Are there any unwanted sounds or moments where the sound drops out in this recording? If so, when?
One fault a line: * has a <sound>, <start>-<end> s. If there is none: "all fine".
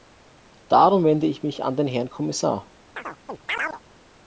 * has a chirp, 3.0-3.8 s